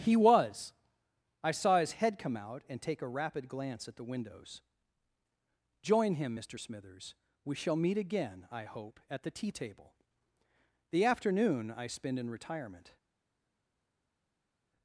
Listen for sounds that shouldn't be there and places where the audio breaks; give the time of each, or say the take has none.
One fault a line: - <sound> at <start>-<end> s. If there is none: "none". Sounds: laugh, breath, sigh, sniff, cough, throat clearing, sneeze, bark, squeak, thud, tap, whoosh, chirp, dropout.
none